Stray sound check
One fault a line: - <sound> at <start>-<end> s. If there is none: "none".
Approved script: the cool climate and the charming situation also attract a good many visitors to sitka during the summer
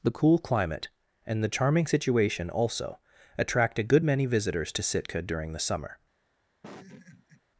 - laugh at 6.6-7.4 s